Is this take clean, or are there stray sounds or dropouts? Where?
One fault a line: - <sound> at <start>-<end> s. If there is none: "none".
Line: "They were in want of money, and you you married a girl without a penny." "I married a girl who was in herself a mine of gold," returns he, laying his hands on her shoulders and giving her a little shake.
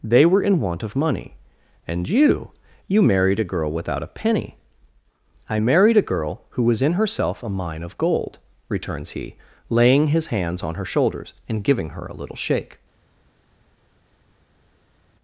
none